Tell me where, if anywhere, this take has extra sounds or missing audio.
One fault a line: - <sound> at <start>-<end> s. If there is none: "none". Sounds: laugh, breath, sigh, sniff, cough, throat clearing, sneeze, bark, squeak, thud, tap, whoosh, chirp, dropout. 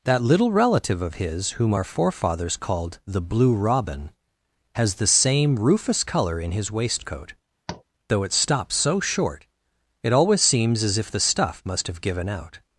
- tap at 7.7-7.8 s